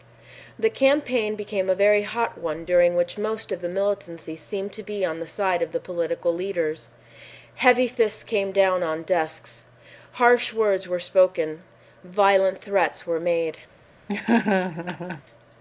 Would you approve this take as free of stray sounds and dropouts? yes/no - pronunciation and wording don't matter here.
no